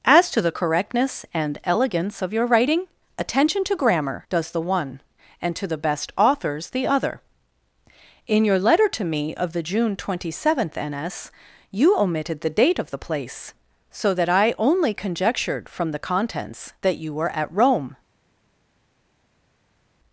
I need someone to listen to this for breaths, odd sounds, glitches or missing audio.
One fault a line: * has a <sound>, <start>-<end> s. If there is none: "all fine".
all fine